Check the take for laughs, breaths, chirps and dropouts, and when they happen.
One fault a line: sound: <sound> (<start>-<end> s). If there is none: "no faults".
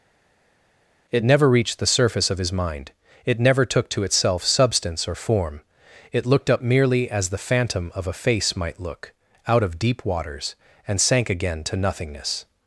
no faults